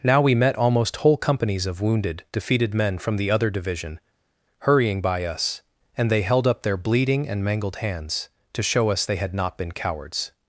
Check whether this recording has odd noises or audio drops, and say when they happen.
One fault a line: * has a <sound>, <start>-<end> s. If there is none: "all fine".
all fine